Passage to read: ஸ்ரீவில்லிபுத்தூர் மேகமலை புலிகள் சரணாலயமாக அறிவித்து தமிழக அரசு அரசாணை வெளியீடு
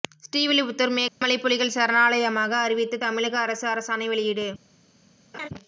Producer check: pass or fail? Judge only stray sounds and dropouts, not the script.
fail